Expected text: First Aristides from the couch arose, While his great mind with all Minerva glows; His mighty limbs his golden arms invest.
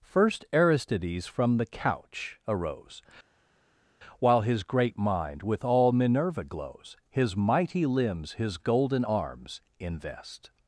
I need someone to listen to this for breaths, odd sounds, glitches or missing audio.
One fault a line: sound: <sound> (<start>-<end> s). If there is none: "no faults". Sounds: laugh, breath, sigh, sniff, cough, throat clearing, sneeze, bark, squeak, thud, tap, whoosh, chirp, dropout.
no faults